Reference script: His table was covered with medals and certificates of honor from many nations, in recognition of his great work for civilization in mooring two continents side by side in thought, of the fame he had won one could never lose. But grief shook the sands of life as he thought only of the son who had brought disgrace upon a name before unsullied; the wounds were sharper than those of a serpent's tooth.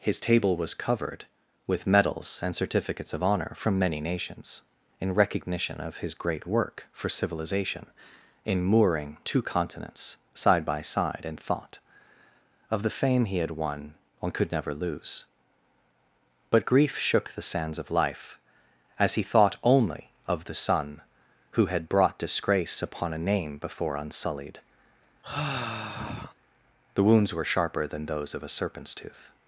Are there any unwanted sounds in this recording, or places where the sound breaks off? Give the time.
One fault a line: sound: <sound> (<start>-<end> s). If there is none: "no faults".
sound: sigh (25.2-26.3 s)